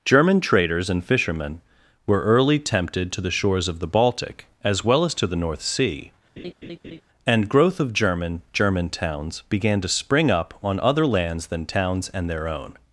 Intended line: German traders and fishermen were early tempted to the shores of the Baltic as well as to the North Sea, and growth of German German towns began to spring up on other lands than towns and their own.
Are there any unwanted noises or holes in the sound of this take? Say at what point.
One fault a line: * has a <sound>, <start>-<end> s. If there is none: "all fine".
* has a laugh, 6.4-7.0 s